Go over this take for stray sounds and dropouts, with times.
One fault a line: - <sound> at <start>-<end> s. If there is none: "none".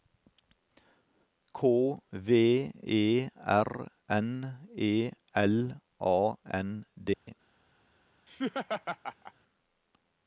- dropout at 7.1-7.3 s
- laugh at 8.3-9.3 s